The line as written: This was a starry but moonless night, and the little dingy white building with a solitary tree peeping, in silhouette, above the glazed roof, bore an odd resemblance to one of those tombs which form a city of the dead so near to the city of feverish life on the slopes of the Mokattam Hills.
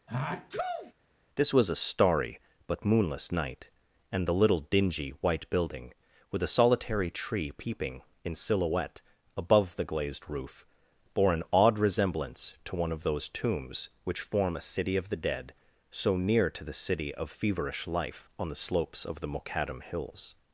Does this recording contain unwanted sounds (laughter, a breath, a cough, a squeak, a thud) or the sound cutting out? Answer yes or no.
yes